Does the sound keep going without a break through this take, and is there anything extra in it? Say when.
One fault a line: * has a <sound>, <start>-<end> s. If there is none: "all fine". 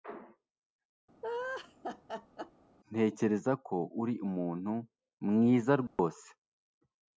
* has a laugh, 1.2-2.5 s
* has a dropout, 5.9-6.0 s